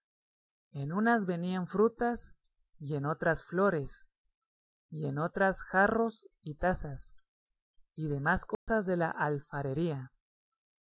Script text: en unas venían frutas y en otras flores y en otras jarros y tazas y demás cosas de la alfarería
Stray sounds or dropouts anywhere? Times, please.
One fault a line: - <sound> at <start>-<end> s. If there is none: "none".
- dropout at 8.5-8.7 s